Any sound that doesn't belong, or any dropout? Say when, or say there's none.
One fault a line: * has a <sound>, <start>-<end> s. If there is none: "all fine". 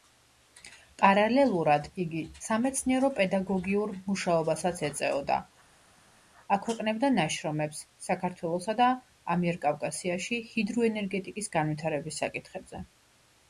all fine